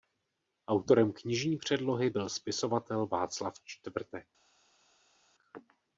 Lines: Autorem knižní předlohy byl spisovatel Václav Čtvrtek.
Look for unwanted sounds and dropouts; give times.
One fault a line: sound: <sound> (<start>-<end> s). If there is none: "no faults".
no faults